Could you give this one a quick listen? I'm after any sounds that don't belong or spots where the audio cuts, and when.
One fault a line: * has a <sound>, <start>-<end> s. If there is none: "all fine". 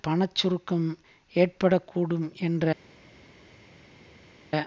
all fine